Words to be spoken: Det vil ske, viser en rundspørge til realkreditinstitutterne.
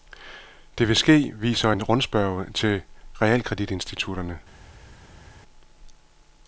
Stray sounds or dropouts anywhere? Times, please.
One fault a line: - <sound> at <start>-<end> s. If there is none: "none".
none